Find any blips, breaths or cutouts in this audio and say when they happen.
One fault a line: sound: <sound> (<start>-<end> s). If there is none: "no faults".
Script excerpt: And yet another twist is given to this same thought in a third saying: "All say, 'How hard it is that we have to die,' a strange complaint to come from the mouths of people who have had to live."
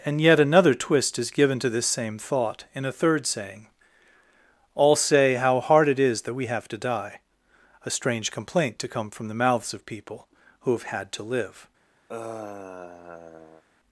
sound: sigh (12.1-13.6 s)